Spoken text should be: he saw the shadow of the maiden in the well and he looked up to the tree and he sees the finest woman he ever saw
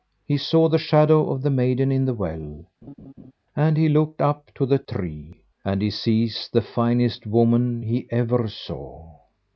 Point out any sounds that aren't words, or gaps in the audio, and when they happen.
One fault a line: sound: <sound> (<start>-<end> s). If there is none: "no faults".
sound: laugh (2.8-3.3 s)